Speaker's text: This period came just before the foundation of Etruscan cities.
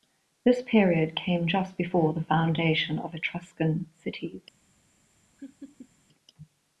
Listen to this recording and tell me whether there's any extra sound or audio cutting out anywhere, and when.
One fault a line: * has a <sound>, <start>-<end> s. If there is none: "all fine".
* has a laugh, 5.4-5.9 s